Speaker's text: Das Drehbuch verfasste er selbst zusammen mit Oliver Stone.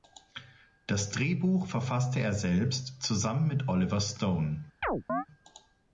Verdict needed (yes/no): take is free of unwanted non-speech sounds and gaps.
no